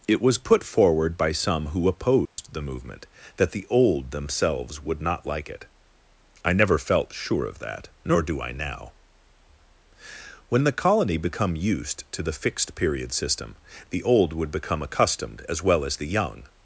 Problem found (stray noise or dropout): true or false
true